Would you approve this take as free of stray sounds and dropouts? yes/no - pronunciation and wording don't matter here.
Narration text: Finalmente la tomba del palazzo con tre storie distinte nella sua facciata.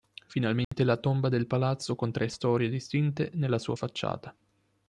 no